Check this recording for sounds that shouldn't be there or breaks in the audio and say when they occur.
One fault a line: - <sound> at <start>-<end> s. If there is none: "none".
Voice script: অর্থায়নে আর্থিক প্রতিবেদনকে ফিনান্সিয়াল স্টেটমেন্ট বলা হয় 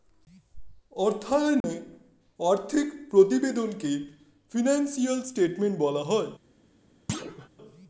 - dropout at 1.6-1.6 s
- thud at 7.1-7.5 s